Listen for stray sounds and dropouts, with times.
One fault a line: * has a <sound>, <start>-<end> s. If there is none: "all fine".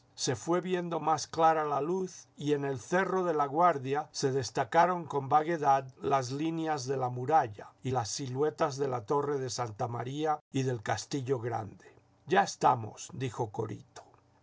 all fine